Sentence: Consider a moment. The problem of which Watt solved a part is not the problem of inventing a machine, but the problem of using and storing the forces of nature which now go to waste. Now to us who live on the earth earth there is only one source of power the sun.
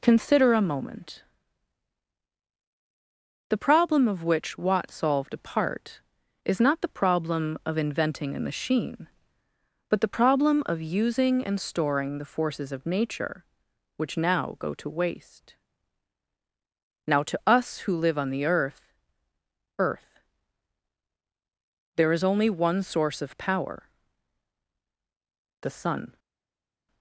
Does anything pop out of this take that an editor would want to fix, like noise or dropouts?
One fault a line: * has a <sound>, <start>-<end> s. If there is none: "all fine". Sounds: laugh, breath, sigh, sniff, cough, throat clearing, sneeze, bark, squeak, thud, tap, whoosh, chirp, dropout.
all fine